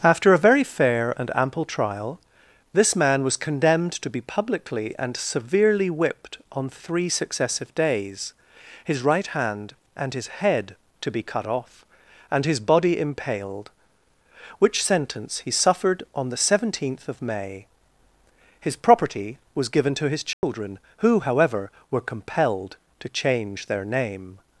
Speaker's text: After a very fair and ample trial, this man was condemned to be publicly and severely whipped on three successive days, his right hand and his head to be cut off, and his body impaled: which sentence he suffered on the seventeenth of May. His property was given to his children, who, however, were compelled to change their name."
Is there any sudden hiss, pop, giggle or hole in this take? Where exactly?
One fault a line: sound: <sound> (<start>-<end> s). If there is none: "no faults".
sound: dropout (20.3-20.4 s)